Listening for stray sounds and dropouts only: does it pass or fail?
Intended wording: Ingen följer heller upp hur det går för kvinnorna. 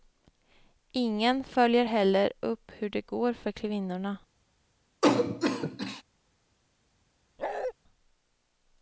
fail